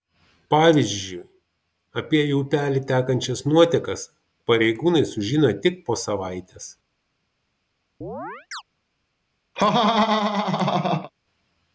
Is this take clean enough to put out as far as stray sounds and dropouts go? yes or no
no